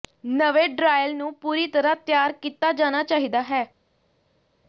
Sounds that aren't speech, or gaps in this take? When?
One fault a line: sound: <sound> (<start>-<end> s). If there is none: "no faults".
no faults